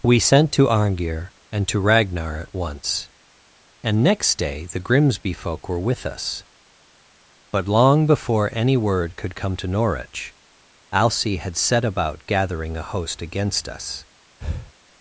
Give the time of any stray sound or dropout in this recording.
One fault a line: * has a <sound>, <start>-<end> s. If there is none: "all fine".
* has a breath, 14.4-14.7 s